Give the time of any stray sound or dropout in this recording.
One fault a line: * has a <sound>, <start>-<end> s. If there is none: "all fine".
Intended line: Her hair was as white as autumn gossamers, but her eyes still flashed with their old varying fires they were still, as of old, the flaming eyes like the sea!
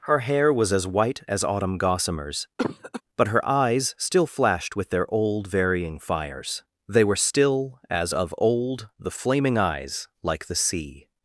* has a cough, 2.6-3.0 s